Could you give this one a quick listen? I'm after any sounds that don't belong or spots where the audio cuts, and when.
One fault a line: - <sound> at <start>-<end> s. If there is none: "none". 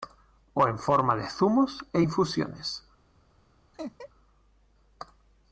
- laugh at 3.7-4.1 s